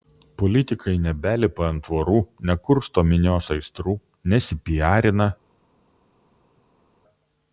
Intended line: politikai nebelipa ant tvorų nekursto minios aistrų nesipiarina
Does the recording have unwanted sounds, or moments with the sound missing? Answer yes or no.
no